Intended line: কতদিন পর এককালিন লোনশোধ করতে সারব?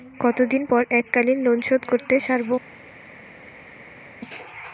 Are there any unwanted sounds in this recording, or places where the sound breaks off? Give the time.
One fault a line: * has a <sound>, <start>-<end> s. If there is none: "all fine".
all fine